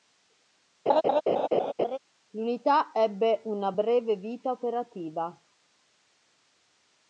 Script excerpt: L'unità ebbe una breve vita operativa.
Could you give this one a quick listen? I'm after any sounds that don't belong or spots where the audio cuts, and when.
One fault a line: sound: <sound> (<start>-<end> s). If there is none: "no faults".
sound: laugh (0.9-2.0 s)